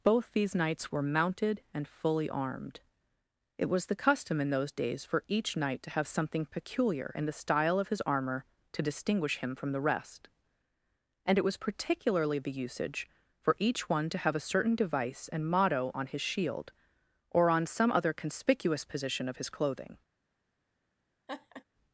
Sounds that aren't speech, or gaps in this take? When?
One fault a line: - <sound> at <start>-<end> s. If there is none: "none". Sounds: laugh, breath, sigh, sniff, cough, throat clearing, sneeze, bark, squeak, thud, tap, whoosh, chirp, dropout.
- laugh at 21.3-21.6 s